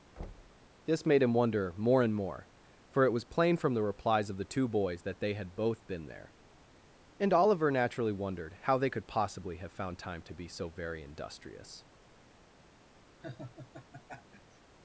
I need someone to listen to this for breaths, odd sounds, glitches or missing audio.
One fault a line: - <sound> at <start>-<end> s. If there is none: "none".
- thud at 0.2-0.7 s
- laugh at 13.2-14.6 s